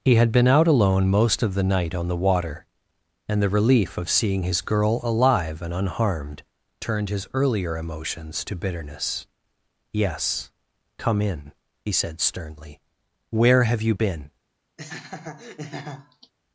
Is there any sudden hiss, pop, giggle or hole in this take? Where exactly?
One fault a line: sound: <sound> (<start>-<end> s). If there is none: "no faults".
sound: laugh (14.8-16.3 s)